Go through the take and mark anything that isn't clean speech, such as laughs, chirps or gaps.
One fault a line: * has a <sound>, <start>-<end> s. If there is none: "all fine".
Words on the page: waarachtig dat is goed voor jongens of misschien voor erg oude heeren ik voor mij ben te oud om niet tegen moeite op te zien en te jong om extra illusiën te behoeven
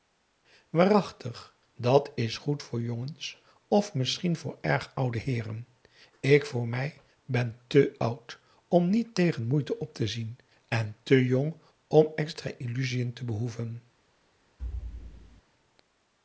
* has a thud, 14.6-15.4 s